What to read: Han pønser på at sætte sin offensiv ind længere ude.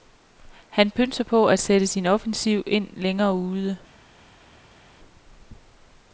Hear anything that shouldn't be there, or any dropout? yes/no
no